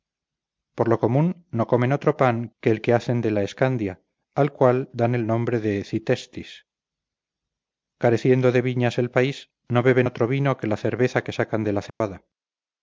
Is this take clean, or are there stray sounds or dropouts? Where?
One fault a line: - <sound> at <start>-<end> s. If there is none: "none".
- dropout at 11.9-12.0 s